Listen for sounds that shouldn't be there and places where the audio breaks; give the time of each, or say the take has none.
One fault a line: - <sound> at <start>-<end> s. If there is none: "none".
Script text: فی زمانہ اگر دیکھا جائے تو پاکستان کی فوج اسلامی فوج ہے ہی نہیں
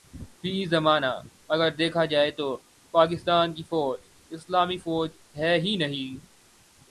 none